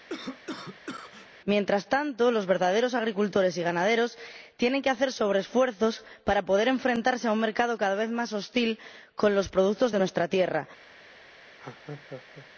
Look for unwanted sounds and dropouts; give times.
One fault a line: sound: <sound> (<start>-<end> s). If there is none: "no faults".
sound: cough (0.1-1.3 s)
sound: laugh (11.6-12.5 s)